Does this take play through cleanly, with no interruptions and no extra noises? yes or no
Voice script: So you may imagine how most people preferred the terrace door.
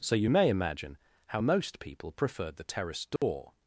no